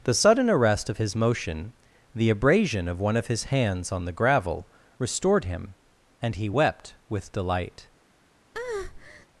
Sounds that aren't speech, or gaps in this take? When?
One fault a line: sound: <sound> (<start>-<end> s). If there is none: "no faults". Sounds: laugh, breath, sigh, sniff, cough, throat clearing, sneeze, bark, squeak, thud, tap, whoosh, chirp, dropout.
sound: breath (8.5-9.3 s)